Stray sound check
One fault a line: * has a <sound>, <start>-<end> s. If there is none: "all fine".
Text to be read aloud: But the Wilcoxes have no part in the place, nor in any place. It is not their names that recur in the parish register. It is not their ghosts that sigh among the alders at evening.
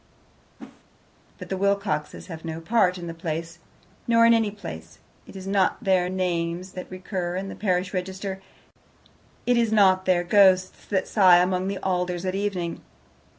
* has a whoosh, 0.6-0.8 s